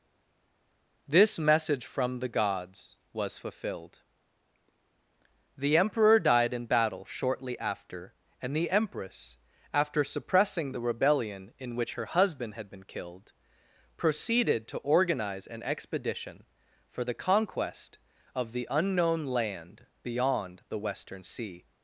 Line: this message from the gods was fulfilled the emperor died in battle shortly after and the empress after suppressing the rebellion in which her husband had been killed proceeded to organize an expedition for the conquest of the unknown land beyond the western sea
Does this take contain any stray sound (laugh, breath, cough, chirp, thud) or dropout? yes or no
no